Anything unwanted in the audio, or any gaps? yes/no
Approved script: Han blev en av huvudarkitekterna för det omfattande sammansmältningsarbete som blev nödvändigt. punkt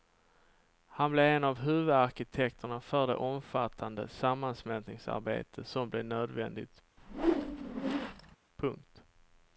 yes